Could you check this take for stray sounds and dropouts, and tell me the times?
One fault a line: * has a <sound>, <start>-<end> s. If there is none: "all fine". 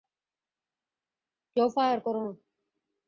all fine